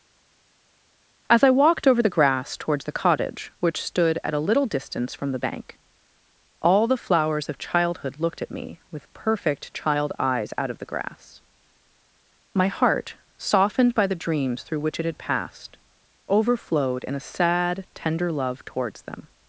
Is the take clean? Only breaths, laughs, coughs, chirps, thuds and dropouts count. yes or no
yes